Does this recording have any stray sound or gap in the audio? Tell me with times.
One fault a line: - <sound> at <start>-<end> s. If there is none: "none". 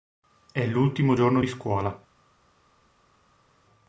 none